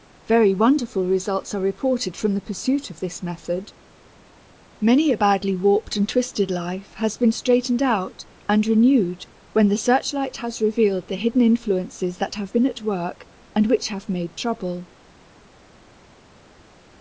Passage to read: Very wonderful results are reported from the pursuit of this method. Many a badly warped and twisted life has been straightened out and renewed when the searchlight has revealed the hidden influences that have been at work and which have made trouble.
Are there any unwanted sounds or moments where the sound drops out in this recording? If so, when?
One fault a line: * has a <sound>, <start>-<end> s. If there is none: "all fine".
all fine